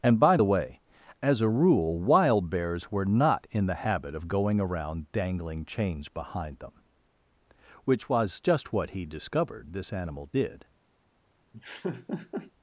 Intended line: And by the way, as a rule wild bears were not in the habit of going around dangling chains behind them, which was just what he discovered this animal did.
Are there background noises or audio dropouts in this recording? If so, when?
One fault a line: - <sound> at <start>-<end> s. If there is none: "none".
- laugh at 11.5-12.5 s